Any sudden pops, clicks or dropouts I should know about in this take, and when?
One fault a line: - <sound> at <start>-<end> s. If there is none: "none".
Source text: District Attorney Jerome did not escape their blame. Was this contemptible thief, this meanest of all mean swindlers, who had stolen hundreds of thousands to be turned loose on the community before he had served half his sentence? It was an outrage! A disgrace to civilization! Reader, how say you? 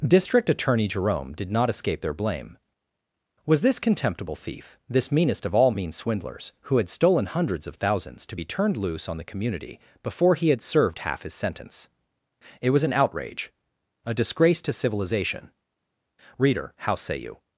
none